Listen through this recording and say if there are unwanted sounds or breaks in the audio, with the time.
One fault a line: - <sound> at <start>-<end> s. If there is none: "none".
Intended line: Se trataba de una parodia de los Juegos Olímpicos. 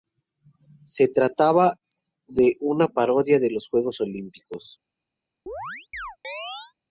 - chirp at 5.5-6.7 s